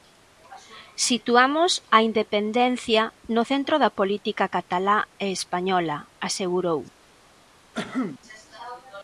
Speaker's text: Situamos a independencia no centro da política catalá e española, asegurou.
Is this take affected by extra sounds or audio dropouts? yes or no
yes